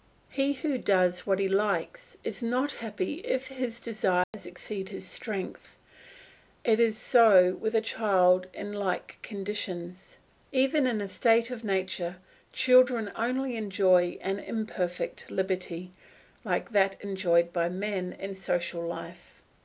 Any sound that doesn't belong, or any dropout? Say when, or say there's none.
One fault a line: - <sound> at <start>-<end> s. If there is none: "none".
- dropout at 4.2-4.3 s